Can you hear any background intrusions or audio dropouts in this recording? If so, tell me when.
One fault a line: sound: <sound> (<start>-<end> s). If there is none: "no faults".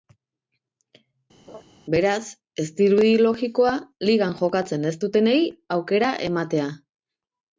sound: laugh (1.5-1.6 s)